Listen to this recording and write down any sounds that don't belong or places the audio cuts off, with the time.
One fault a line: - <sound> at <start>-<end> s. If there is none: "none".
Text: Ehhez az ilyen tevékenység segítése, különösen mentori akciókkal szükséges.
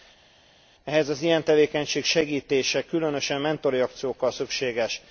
none